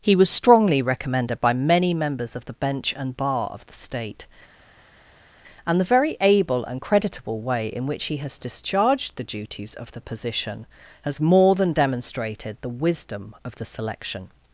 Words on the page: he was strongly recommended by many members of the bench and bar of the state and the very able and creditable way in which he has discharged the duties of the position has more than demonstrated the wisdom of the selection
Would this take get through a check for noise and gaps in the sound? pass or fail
pass